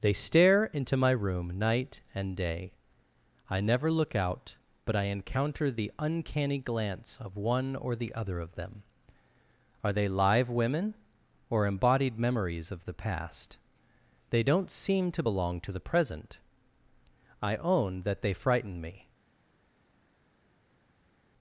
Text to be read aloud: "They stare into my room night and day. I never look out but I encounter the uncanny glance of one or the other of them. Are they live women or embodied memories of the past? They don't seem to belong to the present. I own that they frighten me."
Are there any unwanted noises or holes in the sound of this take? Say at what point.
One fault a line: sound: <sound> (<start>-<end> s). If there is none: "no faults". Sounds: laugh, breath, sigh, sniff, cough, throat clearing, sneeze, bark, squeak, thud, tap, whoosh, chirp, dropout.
no faults